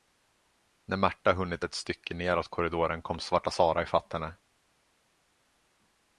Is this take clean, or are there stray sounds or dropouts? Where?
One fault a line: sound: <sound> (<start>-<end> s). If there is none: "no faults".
no faults